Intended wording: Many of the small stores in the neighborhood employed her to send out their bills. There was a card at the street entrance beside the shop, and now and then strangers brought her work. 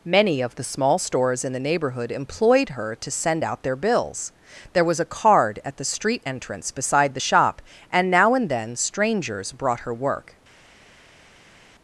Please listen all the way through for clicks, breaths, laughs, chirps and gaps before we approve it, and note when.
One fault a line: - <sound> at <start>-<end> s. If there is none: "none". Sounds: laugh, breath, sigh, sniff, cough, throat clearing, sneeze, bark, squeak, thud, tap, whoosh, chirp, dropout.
none